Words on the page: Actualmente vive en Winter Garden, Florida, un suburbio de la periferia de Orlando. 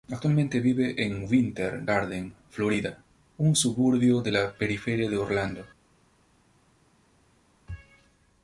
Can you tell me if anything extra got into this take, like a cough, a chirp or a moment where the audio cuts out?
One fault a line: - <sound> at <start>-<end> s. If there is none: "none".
none